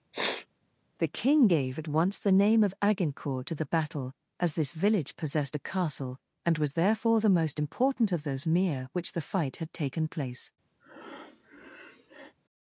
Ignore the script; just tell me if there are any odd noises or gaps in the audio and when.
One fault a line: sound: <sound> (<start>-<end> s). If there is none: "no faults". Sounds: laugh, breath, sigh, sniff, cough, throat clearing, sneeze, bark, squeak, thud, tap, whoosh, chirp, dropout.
sound: sniff (0.1-0.5 s)
sound: breath (10.8-12.3 s)